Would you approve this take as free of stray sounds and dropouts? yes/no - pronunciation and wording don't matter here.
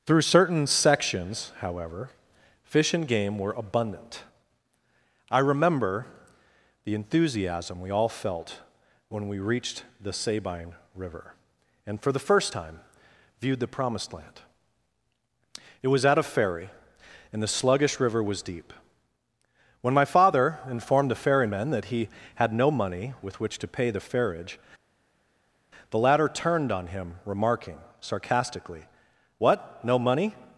yes